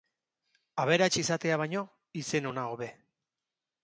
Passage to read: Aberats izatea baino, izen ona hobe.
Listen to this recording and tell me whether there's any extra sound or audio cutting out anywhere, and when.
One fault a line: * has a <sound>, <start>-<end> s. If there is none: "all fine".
all fine